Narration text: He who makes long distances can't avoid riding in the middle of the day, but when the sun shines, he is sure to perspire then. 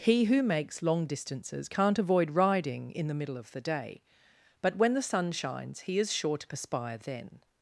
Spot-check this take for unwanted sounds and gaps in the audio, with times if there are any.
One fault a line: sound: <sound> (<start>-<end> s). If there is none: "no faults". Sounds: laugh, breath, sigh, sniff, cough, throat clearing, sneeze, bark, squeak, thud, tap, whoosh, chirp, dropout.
no faults